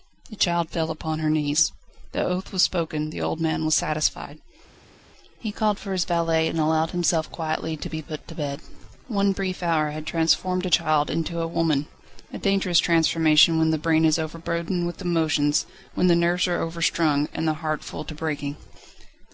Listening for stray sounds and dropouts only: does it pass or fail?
pass